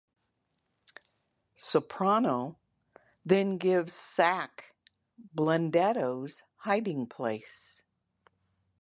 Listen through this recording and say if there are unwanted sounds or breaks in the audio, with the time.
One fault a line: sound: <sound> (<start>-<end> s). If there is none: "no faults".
no faults